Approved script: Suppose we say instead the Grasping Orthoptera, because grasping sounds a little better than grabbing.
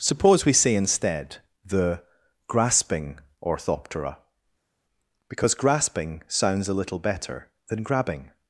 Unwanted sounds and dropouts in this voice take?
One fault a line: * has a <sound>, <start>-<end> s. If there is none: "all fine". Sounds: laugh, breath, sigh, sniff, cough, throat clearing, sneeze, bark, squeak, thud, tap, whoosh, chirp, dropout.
all fine